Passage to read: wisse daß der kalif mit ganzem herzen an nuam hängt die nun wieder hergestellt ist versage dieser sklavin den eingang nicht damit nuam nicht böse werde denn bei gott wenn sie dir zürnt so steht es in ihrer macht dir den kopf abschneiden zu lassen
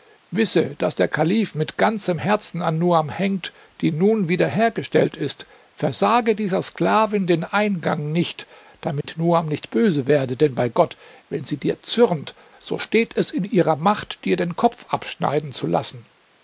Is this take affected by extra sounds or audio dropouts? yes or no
yes